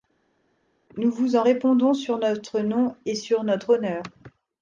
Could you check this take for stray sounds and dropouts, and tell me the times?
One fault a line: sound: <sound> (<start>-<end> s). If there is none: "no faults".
no faults